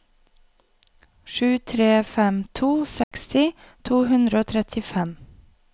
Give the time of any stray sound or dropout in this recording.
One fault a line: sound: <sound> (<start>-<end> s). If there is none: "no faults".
sound: dropout (3.0-3.1 s)